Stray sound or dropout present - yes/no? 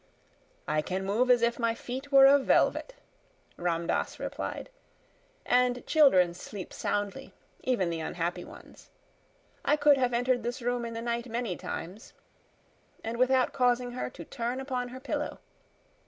no